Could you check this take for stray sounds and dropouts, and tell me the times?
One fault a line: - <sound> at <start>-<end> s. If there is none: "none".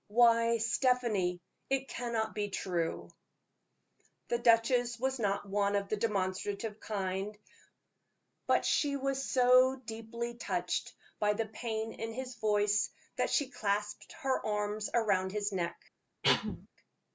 - cough at 16.2-16.7 s